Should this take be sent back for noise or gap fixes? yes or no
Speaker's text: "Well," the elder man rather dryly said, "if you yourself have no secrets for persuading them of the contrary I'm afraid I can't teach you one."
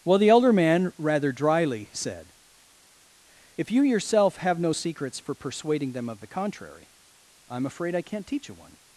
no